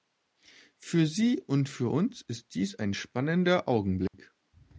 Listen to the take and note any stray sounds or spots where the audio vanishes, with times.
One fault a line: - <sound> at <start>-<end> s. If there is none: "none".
- dropout at 4.1-4.1 s